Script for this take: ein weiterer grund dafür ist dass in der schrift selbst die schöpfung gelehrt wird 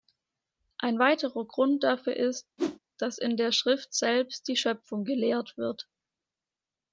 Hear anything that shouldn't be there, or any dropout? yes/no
yes